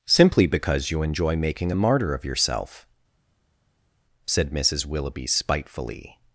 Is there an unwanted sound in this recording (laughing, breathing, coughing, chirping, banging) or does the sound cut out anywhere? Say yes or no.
no